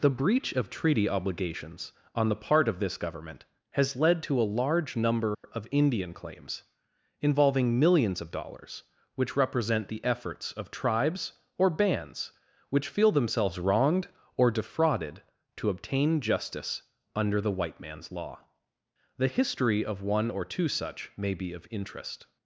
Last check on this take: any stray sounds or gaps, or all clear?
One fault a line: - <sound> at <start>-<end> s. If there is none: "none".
- dropout at 5.3-5.4 s